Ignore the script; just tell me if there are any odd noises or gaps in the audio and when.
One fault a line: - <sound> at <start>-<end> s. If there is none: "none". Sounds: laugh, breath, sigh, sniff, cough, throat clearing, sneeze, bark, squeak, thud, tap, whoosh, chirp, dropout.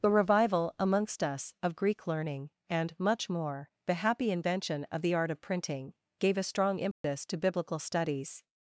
- dropout at 6.9-7.0 s